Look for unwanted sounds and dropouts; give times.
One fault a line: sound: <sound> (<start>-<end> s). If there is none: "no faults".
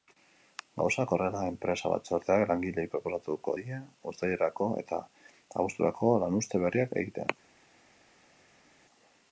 no faults